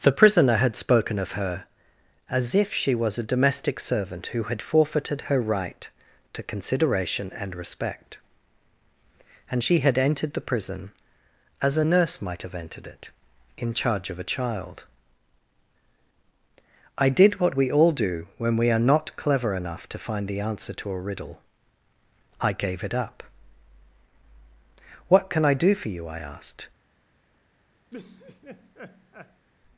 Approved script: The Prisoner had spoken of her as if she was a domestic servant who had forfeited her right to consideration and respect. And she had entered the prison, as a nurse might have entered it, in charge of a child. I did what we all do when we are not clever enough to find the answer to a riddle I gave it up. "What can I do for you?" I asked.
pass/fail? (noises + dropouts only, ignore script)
fail